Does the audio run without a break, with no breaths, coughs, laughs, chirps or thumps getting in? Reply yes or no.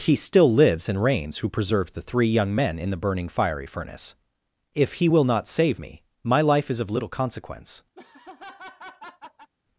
no